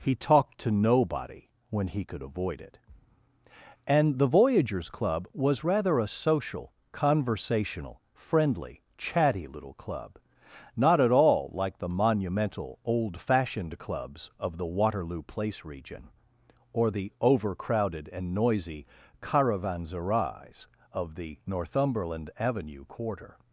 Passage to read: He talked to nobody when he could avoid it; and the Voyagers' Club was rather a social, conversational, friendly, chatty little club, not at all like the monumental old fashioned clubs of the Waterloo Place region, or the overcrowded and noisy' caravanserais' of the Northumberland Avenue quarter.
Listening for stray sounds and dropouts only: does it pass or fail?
pass